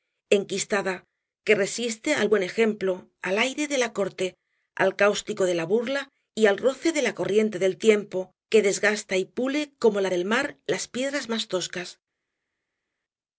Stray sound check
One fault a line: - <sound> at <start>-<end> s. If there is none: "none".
none